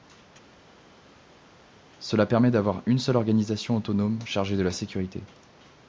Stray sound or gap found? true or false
false